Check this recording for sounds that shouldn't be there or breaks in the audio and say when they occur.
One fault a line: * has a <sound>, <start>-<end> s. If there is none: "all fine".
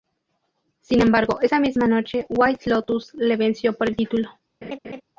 * has a laugh, 4.6-5.0 s